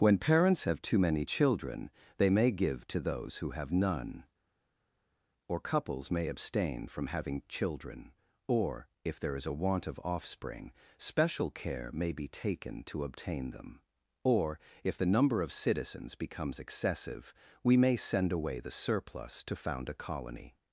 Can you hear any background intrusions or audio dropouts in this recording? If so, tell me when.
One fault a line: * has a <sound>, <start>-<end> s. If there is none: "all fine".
all fine